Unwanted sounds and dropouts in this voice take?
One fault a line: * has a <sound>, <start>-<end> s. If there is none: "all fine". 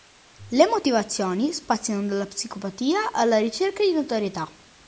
all fine